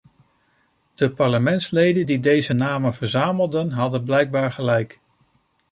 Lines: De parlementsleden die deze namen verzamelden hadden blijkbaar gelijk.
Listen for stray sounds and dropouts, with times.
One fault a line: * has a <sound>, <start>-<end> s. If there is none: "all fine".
all fine